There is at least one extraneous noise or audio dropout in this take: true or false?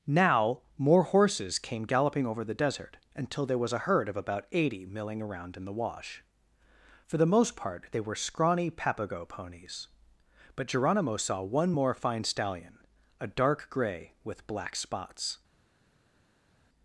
false